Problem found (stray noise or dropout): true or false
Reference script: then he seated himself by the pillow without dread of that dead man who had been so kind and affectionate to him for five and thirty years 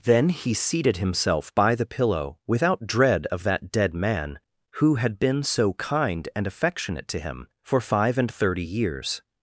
false